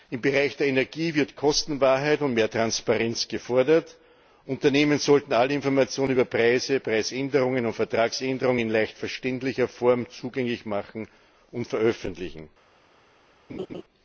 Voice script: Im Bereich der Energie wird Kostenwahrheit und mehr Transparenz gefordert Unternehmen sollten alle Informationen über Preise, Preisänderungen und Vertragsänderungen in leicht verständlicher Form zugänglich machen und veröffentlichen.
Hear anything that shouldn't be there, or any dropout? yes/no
yes